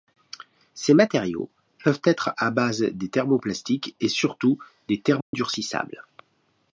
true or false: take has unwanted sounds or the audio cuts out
true